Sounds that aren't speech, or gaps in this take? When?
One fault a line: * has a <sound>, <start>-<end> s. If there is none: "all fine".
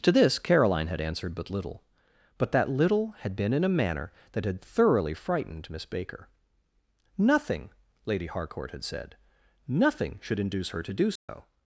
* has a dropout, 11.2-11.3 s